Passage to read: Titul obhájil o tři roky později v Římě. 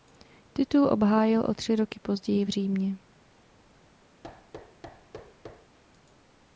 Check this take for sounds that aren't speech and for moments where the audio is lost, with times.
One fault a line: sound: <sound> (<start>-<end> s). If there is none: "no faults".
sound: thud (4.2-5.8 s)